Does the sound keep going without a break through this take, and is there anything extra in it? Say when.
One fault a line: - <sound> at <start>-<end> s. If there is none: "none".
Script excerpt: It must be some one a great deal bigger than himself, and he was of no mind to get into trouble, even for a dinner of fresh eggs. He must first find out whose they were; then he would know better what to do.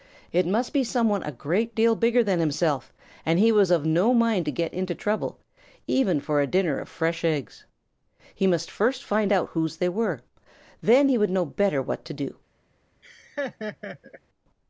- laugh at 13.0-14.2 s